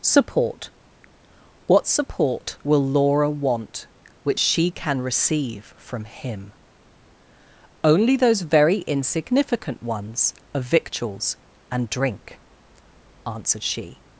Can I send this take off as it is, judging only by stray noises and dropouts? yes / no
yes